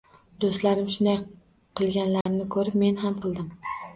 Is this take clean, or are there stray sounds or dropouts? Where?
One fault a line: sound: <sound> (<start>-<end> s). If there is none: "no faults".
sound: dropout (2.2-2.3 s)